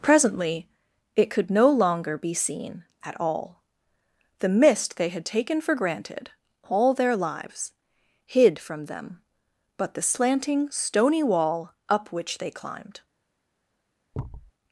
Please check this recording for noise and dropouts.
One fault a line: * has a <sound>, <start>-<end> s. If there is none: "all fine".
* has a thud, 14.1-14.5 s